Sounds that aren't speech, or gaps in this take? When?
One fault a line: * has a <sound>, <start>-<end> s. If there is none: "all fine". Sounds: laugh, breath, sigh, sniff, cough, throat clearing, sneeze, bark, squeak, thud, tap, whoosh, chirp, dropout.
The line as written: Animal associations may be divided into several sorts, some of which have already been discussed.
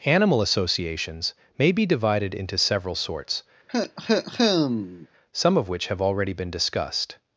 * has a cough, 3.7-5.1 s